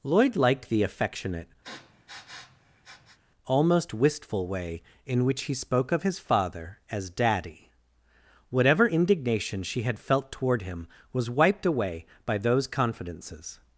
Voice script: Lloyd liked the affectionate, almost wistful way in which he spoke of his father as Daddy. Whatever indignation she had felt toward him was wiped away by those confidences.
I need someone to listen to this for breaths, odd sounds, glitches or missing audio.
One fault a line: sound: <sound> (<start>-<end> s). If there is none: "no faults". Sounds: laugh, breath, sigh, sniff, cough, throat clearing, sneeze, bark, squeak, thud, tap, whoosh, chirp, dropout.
sound: sniff (1.6-3.2 s)